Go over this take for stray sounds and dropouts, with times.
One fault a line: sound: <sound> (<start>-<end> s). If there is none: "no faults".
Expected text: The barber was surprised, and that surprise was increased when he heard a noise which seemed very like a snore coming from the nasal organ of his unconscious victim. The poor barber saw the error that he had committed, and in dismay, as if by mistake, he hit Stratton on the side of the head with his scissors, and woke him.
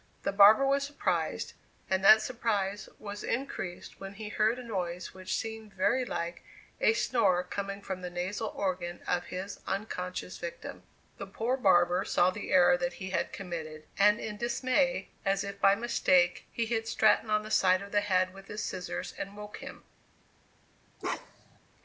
sound: bark (21.0-21.6 s)